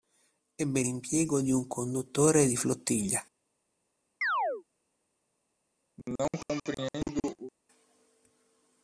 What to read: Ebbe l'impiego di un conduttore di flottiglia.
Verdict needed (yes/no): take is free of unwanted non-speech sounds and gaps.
no